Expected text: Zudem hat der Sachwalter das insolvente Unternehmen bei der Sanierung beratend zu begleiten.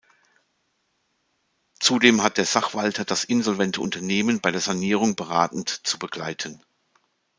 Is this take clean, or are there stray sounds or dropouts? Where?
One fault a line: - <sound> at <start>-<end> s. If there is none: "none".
none